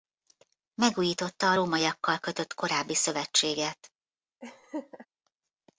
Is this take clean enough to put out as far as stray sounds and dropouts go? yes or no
no